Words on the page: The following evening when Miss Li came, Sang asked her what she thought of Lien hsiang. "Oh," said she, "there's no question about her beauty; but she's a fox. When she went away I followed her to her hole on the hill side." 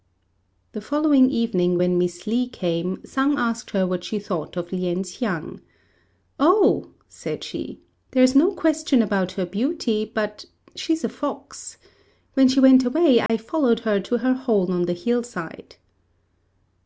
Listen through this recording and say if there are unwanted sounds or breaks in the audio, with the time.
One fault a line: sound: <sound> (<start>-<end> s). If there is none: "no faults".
sound: dropout (13.3-13.3 s)